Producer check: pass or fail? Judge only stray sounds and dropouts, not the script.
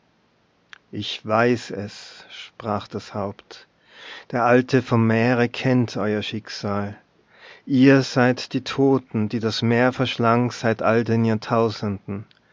pass